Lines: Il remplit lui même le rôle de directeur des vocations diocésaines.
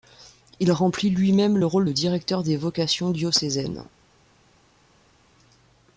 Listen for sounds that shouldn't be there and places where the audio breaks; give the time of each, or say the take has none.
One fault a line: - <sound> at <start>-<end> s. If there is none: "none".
none